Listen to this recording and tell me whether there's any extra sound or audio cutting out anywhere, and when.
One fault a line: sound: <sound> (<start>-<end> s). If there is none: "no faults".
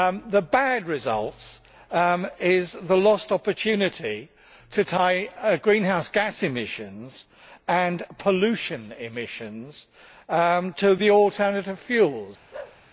sound: bark (12.5-12.8 s)